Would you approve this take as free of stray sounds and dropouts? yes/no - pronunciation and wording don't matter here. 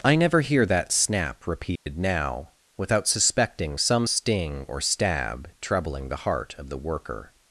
no